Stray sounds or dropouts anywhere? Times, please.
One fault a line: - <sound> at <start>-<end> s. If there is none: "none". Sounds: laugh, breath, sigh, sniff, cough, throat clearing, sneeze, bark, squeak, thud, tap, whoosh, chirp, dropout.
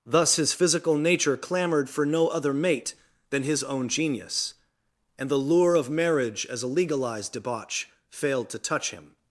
none